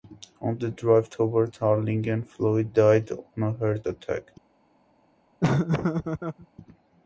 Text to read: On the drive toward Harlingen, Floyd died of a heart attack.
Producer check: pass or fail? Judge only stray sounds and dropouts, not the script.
fail